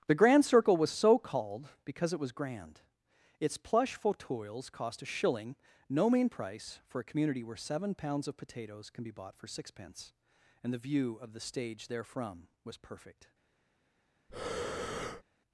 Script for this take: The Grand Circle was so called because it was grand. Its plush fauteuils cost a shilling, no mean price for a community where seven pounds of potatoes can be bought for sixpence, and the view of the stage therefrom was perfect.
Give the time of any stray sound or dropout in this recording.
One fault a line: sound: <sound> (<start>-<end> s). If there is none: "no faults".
sound: breath (14.3-15.2 s)